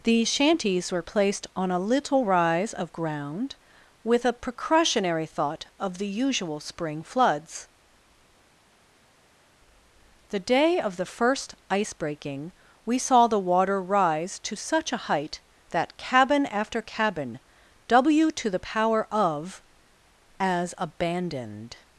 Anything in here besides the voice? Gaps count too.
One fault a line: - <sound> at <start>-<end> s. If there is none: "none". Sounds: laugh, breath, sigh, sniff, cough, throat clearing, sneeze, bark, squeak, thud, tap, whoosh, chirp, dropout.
none